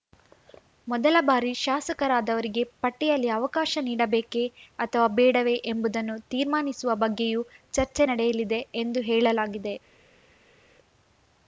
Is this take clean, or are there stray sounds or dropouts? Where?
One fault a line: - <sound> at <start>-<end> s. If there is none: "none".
none